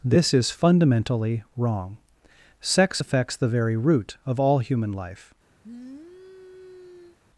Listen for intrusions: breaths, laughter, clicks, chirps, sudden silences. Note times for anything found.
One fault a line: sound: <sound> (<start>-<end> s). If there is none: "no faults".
sound: sniff (5.6-7.2 s)